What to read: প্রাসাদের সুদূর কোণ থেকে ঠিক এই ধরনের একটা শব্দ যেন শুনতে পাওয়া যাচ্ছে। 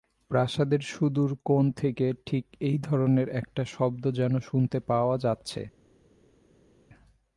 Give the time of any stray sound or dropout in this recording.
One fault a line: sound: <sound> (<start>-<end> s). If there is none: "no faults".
no faults